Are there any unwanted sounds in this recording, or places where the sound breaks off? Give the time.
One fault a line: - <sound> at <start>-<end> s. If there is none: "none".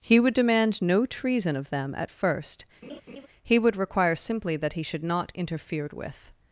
- laugh at 2.8-3.3 s